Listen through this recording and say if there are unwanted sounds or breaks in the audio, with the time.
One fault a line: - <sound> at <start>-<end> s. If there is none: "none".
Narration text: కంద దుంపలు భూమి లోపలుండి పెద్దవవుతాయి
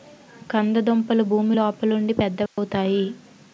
- dropout at 2.5-2.6 s